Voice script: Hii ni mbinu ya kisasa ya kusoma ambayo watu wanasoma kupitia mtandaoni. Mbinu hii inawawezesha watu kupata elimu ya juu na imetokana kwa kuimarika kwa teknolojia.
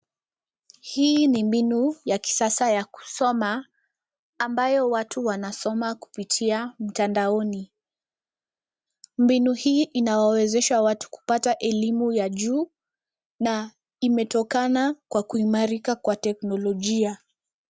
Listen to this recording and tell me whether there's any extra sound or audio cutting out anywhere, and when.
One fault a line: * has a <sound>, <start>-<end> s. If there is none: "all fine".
all fine